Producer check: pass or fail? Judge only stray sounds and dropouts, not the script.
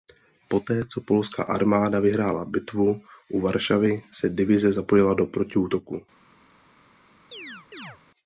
fail